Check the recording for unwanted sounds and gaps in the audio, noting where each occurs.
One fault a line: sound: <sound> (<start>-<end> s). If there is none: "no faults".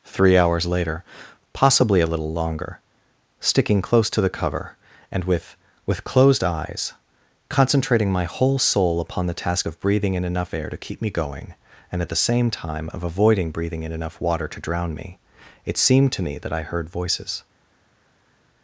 no faults